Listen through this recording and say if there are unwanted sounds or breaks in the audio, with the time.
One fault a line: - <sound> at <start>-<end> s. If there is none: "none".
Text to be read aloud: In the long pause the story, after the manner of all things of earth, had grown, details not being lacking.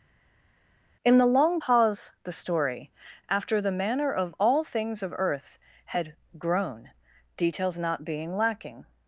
none